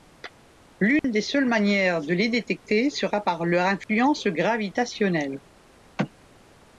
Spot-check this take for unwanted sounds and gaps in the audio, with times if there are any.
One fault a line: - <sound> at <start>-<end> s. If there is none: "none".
- dropout at 1.0-1.0 s
- dropout at 3.8-3.9 s